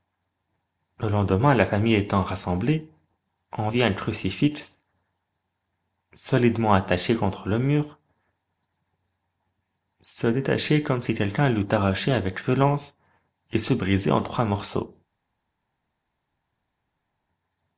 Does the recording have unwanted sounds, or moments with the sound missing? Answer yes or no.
no